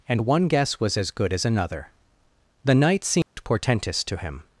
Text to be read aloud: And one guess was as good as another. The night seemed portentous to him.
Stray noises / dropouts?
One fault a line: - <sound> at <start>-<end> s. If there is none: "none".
- dropout at 3.2-3.4 s